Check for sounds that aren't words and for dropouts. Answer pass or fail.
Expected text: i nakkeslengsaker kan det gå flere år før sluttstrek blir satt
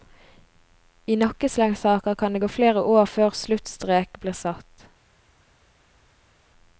pass